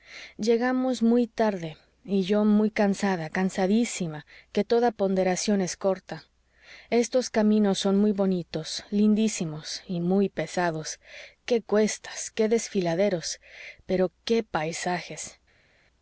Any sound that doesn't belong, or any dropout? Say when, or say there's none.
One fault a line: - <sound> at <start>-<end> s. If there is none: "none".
none